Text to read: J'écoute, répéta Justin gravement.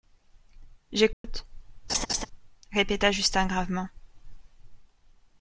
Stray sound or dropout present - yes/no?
yes